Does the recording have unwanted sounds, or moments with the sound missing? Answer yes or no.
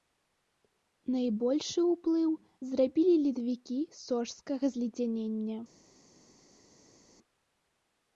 no